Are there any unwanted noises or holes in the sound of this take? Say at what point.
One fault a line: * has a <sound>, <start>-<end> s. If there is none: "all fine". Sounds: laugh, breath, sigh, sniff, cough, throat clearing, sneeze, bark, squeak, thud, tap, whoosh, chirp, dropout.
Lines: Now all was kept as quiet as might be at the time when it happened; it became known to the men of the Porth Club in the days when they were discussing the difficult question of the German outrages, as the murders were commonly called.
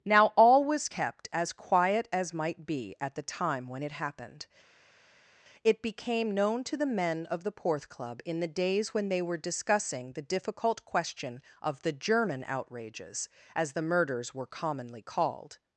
all fine